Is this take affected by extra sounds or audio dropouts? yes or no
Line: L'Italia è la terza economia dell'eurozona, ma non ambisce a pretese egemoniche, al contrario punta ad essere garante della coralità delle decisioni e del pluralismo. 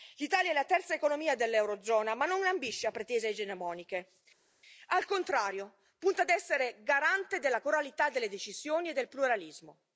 no